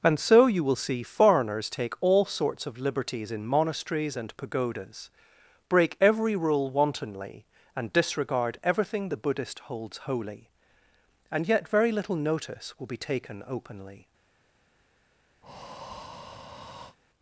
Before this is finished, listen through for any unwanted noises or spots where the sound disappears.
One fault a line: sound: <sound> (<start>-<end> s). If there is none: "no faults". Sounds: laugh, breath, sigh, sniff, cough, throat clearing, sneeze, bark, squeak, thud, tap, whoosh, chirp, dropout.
sound: breath (15.4-17.0 s)